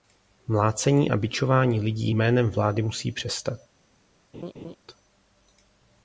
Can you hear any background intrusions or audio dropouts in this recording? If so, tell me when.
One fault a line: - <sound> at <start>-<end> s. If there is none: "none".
- laugh at 4.3-4.8 s